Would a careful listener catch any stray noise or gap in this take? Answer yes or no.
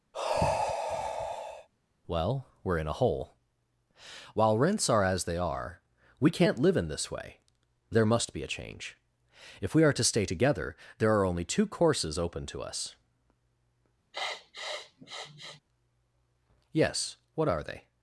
yes